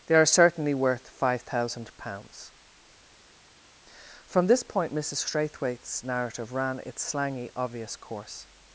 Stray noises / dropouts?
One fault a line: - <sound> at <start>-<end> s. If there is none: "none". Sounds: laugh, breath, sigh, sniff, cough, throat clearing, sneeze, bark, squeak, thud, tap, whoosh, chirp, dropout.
none